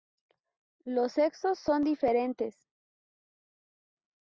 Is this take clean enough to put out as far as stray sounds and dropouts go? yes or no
yes